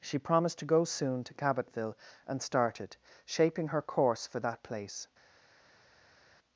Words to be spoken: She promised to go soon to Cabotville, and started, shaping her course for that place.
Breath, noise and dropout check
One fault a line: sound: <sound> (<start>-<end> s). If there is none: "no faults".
no faults